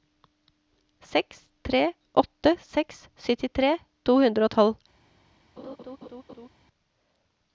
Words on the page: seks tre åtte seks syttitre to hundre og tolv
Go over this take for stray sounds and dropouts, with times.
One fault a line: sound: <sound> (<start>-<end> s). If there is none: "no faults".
sound: laugh (5.6-6.5 s)